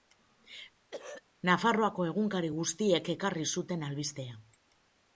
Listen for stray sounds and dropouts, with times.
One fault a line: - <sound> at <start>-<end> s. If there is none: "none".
- throat clearing at 0.9-1.2 s